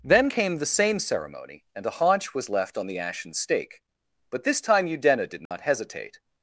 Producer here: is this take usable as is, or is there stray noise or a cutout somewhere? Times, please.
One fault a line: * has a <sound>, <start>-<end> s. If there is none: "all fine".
* has a dropout, 5.5-5.5 s